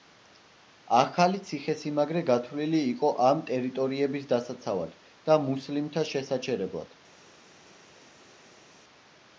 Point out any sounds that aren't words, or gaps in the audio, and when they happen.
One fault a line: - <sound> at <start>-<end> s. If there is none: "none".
none